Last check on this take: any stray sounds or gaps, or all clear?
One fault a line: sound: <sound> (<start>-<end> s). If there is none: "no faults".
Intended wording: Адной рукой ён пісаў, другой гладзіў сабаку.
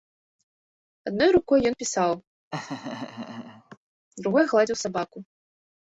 sound: laugh (2.5-3.8 s)